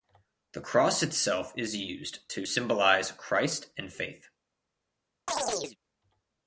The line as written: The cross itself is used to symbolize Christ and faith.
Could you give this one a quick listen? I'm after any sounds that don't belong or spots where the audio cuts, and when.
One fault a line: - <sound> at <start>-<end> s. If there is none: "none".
- chirp at 5.3-5.8 s